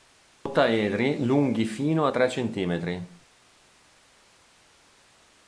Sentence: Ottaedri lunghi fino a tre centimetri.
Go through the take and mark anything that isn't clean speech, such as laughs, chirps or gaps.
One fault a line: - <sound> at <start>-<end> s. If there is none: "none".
none